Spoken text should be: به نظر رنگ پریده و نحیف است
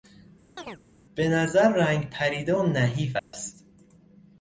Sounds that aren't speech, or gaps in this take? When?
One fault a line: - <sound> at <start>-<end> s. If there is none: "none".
- chirp at 0.6-0.8 s
- dropout at 3.2-3.3 s